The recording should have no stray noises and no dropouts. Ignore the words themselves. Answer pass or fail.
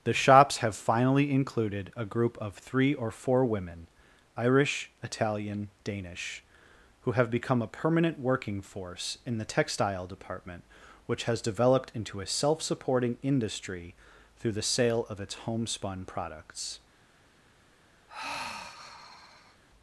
fail